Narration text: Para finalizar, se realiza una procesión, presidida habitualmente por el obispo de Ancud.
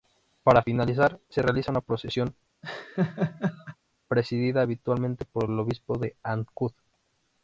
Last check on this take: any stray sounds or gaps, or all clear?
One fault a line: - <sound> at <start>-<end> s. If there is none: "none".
- laugh at 2.6-3.8 s